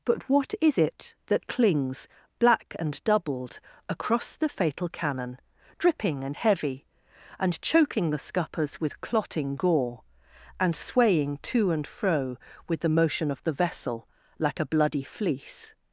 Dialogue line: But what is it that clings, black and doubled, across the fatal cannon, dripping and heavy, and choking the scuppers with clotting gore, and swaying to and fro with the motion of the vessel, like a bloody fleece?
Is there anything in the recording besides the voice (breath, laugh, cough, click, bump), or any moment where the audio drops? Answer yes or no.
no